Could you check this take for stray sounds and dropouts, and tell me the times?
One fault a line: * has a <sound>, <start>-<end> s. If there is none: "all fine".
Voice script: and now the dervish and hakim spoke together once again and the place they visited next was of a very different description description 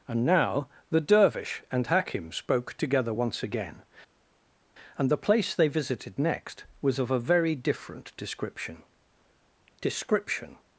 all fine